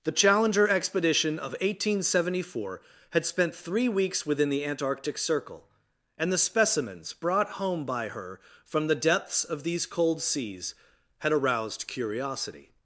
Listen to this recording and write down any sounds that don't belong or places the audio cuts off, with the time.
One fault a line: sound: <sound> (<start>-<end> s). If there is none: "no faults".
no faults